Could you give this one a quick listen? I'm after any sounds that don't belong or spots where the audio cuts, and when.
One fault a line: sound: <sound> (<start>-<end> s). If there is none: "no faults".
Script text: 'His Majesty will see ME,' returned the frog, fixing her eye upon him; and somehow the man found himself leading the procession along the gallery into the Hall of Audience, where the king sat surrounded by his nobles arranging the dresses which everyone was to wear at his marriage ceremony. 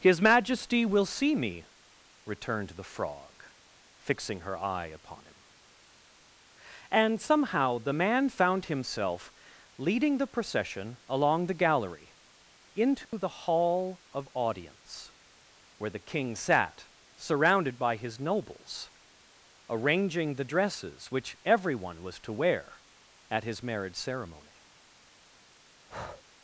sound: dropout (13.0-13.1 s)
sound: breath (25.9-26.2 s)